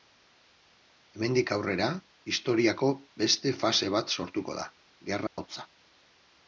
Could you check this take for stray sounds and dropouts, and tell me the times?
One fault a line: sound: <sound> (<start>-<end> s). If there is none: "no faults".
sound: dropout (5.3-5.4 s)